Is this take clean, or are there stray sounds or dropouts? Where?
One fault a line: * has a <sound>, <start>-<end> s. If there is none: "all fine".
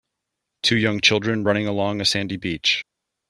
all fine